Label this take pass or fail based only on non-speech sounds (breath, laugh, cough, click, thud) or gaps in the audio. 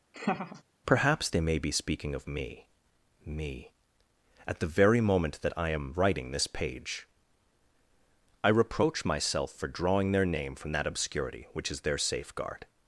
fail